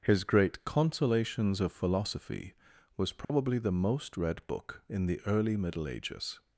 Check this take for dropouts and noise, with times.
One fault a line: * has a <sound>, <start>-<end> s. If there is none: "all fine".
* has a dropout, 3.2-3.3 s